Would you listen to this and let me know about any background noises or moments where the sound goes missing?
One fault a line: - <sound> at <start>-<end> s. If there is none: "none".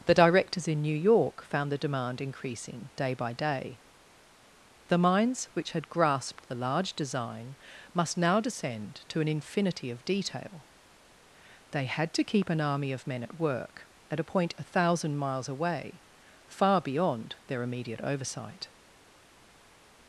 none